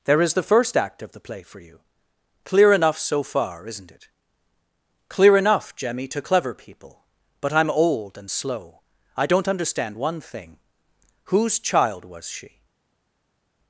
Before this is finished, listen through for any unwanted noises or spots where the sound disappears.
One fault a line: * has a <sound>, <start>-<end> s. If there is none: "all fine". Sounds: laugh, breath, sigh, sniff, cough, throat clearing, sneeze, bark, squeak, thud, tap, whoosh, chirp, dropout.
all fine